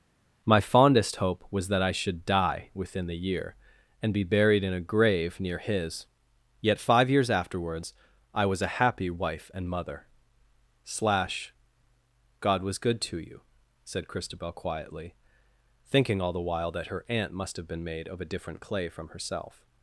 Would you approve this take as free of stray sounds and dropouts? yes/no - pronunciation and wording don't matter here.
yes